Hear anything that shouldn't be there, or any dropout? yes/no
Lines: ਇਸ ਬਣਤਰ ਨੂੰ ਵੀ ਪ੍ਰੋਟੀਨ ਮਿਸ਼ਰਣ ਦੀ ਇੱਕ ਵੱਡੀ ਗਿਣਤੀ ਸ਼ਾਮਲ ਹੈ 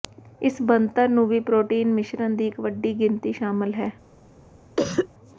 yes